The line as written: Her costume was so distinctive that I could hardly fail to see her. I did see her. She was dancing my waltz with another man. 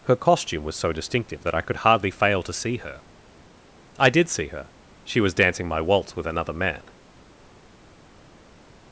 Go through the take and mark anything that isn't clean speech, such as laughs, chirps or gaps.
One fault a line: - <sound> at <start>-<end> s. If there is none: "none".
none